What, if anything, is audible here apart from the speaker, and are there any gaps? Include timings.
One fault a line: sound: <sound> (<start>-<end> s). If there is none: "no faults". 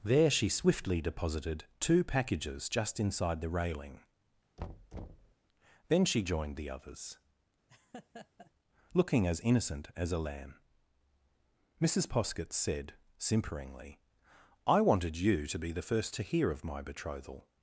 sound: thud (4.6-5.3 s)
sound: laugh (7.7-8.5 s)